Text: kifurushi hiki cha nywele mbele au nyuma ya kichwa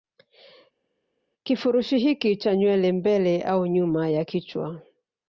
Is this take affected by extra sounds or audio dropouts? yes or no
no